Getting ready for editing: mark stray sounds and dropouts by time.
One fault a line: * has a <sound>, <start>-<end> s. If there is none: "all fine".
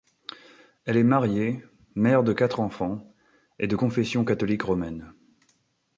all fine